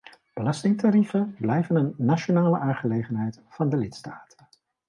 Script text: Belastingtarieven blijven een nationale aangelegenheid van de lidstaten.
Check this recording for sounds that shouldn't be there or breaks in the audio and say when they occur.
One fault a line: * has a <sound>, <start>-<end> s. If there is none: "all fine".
all fine